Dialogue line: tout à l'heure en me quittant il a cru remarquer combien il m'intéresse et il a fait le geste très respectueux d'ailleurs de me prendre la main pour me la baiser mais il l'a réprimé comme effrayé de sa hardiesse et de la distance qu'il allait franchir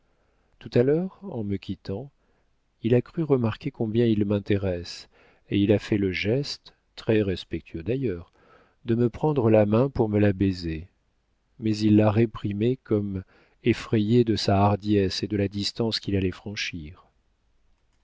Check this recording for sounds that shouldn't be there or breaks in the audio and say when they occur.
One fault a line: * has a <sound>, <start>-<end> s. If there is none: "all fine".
all fine